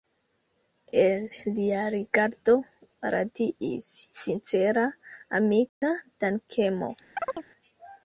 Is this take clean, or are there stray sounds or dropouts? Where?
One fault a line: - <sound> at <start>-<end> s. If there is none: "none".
- dropout at 5.7-5.8 s
- chirp at 7.2-7.5 s